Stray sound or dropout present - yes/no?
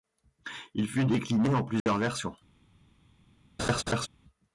yes